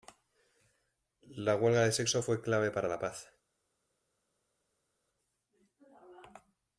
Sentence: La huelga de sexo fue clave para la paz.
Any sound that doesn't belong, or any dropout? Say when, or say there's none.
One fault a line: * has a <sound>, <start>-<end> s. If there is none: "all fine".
all fine